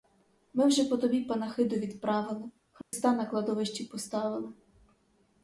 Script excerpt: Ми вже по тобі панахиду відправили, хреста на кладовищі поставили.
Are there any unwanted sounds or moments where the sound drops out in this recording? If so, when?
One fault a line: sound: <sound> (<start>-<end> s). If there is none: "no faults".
sound: dropout (2.8-2.9 s)